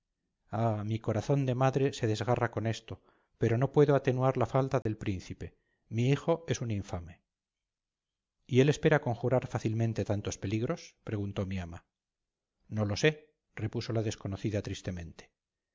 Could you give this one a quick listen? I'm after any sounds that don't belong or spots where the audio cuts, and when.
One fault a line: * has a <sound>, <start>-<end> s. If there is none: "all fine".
* has a dropout, 4.8-4.9 s